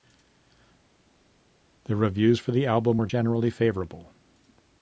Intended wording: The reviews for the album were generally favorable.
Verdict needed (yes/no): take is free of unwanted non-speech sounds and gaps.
yes